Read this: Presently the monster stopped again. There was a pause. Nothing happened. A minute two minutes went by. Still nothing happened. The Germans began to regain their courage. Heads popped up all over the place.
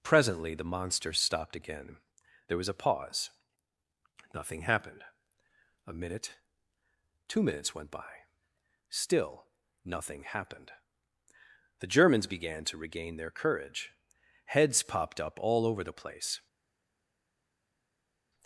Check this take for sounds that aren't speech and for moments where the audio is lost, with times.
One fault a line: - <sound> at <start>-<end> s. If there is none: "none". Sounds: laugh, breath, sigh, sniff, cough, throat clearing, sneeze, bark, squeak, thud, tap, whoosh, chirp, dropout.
none